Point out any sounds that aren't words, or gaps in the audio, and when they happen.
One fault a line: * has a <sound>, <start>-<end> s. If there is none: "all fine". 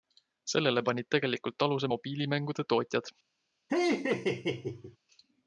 * has a laugh, 3.7-5.0 s